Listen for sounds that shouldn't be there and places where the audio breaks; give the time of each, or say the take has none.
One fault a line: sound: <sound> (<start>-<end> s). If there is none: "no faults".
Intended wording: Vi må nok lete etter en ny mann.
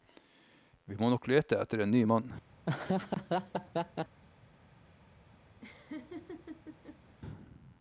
sound: laugh (2.6-4.2 s)
sound: laugh (5.6-7.2 s)